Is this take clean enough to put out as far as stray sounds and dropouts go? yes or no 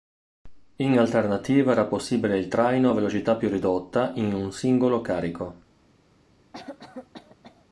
no